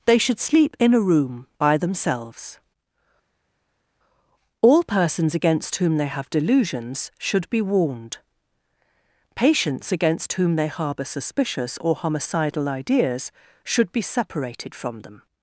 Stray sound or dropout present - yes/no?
no